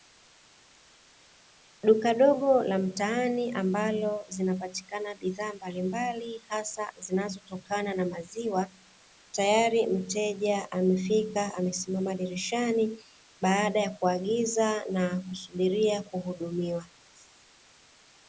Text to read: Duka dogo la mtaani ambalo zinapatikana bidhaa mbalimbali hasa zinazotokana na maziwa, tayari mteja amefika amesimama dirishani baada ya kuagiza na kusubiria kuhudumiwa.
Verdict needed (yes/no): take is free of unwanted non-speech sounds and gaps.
yes